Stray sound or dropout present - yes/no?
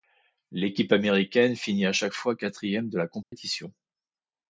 yes